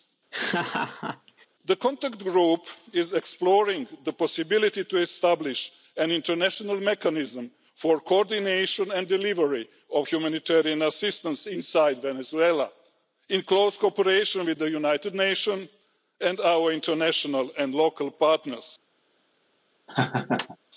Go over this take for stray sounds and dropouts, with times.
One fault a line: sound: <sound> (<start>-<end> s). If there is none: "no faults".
sound: laugh (0.3-1.5 s)
sound: laugh (19.9-20.6 s)